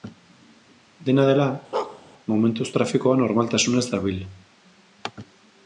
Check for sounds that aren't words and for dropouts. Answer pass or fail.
fail